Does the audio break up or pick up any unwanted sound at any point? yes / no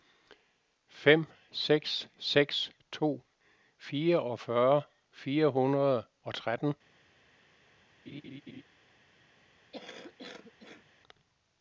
yes